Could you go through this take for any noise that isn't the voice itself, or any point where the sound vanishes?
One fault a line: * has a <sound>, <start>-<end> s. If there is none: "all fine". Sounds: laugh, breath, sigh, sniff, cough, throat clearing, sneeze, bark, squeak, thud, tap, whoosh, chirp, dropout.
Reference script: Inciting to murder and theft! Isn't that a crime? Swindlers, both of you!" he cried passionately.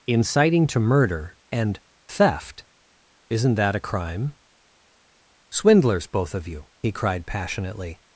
all fine